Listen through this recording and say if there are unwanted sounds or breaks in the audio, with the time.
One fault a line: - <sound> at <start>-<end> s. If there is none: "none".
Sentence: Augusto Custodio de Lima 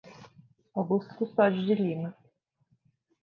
none